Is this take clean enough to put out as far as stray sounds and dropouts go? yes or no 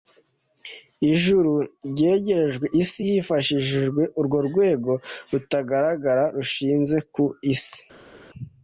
yes